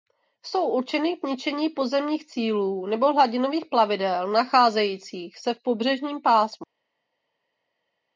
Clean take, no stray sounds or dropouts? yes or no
yes